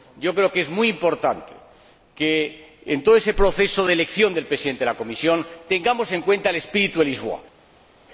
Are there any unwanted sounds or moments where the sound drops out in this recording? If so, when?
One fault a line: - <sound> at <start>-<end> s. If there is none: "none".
none